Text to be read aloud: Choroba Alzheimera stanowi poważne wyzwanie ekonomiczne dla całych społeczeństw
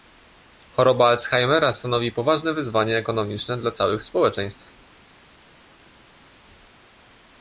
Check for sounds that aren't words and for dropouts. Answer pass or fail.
pass